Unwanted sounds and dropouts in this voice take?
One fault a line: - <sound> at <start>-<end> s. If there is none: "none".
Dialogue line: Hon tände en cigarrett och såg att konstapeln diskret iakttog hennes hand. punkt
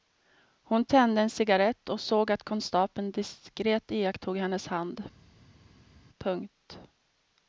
none